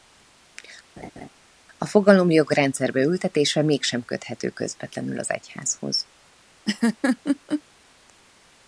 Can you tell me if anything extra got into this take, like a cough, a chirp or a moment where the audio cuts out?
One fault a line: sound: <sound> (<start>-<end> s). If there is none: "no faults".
sound: laugh (1.0-1.3 s)
sound: laugh (6.7-7.6 s)